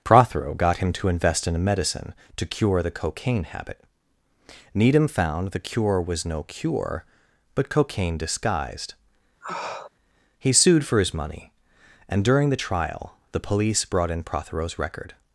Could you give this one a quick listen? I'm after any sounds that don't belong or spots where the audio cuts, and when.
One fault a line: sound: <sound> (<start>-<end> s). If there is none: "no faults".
sound: sniff (9.4-9.9 s)